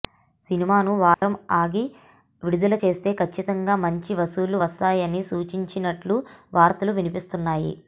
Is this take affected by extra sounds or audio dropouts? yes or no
yes